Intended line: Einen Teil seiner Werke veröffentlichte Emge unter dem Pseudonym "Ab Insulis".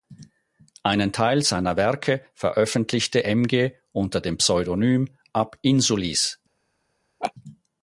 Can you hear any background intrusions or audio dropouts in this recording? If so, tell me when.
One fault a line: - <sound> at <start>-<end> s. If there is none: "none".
- laugh at 7.2-7.3 s